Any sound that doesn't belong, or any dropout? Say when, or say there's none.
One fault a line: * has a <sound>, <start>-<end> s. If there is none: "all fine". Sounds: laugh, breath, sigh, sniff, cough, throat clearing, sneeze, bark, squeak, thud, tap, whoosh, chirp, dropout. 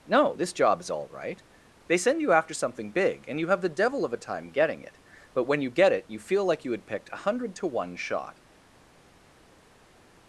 all fine